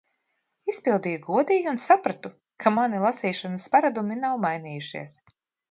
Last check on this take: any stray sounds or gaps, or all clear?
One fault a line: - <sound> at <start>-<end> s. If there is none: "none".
none